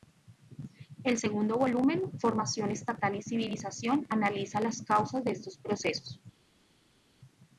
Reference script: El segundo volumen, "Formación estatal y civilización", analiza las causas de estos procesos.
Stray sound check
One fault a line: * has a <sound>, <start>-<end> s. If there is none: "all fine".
all fine